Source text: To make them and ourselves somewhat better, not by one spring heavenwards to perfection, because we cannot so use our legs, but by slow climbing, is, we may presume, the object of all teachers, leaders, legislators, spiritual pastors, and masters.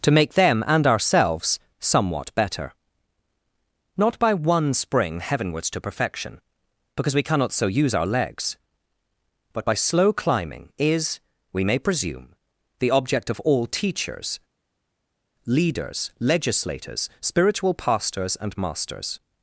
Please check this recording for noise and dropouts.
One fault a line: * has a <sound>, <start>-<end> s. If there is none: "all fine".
all fine